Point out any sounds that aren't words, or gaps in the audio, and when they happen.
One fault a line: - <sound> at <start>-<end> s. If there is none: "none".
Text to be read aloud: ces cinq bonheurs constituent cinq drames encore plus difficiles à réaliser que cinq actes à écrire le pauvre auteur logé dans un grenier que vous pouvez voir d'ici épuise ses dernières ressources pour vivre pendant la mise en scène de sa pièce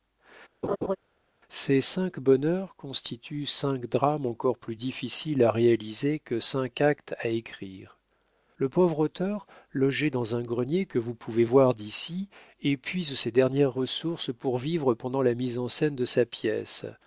- laugh at 0.6-1.0 s